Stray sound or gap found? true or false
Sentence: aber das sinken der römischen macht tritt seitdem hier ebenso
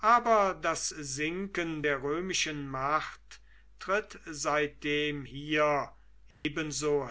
true